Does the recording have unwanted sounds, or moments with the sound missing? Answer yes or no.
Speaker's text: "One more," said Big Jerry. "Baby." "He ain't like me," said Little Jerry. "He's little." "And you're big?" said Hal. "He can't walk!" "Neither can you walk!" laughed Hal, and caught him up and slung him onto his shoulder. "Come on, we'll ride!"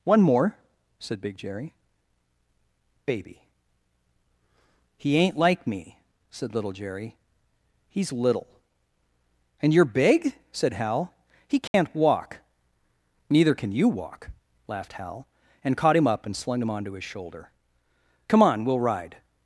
yes